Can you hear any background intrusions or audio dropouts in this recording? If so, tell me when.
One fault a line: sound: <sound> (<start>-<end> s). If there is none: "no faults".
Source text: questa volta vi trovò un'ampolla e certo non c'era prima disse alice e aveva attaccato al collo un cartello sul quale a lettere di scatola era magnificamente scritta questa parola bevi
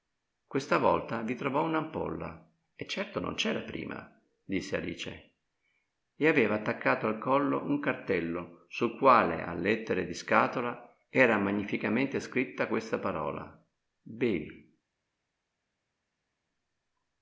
no faults